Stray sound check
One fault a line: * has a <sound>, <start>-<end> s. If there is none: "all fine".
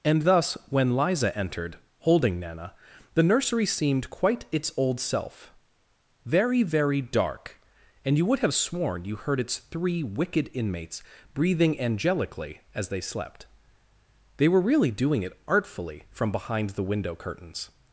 all fine